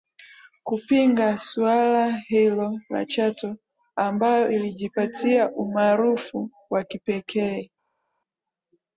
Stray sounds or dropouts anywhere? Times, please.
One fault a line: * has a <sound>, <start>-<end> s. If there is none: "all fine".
all fine